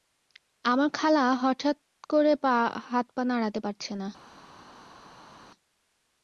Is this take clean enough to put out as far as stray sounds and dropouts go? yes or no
yes